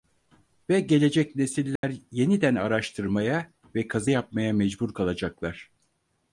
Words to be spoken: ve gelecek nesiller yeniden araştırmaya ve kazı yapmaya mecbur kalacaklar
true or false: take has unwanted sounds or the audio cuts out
true